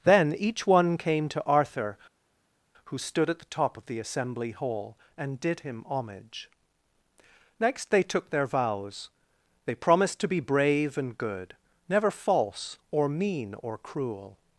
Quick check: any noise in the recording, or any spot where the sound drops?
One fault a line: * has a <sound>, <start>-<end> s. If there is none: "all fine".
all fine